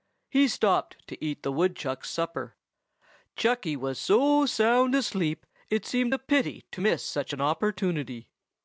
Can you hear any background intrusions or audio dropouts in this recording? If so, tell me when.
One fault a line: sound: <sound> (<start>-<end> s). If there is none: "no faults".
no faults